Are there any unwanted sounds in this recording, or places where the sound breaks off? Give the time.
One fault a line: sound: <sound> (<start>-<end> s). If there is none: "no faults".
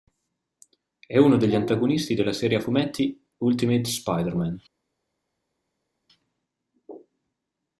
no faults